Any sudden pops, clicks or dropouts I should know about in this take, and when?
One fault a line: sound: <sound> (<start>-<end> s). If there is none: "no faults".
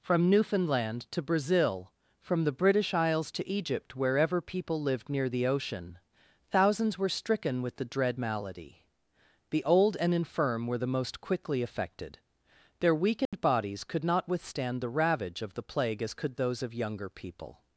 sound: dropout (13.3-13.3 s)